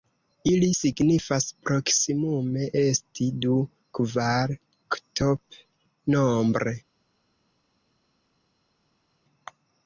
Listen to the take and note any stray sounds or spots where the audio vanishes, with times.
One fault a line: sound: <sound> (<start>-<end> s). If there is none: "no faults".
no faults